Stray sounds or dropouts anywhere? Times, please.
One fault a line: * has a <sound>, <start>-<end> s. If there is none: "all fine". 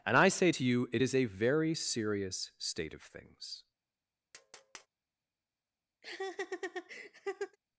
* has a tap, 4.3-4.9 s
* has a laugh, 6.0-7.6 s